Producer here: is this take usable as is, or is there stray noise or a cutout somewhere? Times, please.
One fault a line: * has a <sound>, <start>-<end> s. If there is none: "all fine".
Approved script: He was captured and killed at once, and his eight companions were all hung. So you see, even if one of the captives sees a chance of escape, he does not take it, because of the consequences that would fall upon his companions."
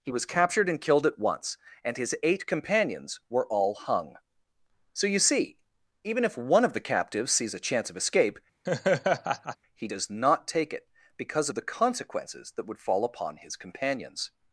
* has a laugh, 8.7-9.6 s